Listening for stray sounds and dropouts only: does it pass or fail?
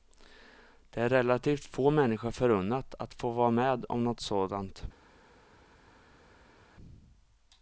pass